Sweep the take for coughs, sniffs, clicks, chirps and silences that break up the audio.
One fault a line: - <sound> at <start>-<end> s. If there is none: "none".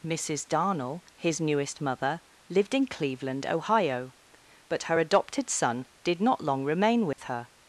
- dropout at 7.1-7.2 s